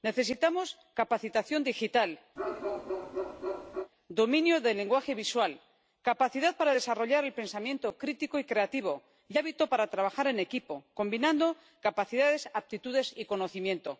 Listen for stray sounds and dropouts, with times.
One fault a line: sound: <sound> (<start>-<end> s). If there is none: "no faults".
sound: bark (2.4-3.9 s)